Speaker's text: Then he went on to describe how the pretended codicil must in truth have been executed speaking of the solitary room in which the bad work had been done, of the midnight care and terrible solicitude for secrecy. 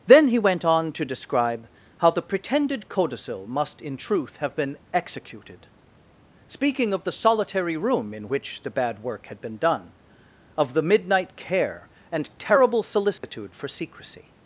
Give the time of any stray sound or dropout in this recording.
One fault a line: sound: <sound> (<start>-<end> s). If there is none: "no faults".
sound: dropout (13.2-13.2 s)